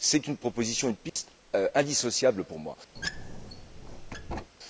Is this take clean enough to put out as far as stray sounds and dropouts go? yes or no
no